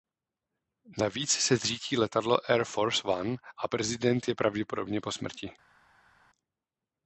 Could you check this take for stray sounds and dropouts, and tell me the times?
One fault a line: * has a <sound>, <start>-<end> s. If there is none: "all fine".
all fine